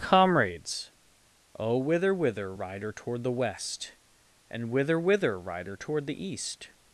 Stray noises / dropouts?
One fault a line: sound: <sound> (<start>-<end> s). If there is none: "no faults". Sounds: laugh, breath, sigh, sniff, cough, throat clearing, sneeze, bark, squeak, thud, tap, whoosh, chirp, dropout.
no faults